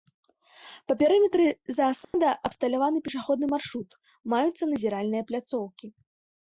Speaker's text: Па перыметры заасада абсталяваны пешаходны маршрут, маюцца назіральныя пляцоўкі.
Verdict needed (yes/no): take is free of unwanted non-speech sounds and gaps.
no